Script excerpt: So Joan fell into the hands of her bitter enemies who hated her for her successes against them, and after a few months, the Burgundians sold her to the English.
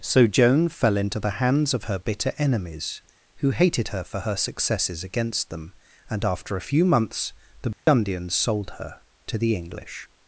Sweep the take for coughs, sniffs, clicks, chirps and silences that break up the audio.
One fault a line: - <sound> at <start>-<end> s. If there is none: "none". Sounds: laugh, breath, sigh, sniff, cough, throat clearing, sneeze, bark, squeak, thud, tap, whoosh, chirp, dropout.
- dropout at 7.7-7.9 s